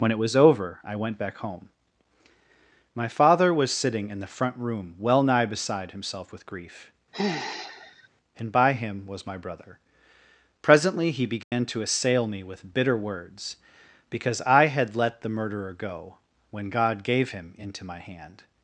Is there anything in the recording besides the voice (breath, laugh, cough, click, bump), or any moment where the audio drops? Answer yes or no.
yes